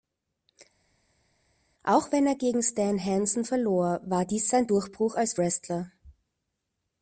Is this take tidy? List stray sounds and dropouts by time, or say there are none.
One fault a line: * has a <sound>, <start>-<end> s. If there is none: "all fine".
all fine